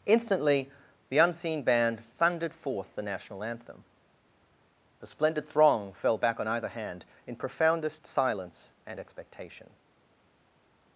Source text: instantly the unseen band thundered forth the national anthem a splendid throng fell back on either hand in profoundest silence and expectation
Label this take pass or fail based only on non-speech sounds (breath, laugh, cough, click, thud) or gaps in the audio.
pass